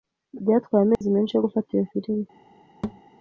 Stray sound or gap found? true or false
true